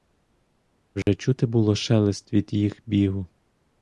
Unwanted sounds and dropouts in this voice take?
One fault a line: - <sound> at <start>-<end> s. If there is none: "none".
- dropout at 1.0-1.1 s